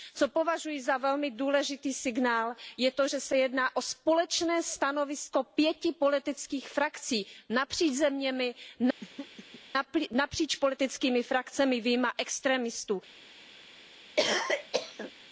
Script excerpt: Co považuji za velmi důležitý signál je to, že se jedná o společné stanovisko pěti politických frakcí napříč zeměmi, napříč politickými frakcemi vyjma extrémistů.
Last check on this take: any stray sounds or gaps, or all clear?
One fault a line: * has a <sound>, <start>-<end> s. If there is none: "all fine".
* has a throat clearing, 9.0-9.6 s
* has a cough, 14.2-15.1 s